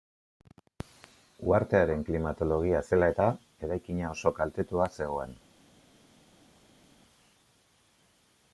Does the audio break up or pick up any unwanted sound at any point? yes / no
no